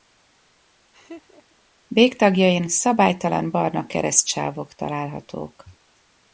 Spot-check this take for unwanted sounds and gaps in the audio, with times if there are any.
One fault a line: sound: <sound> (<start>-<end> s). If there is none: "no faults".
sound: laugh (0.9-1.6 s)